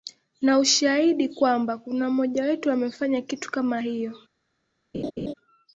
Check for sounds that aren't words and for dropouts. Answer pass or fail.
fail